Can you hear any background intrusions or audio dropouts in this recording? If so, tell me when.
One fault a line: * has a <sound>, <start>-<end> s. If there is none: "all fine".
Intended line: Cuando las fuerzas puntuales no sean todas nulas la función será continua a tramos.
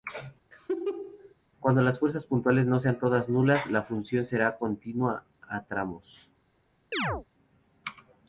* has a laugh, 0.5-1.3 s
* has a chirp, 6.9-7.3 s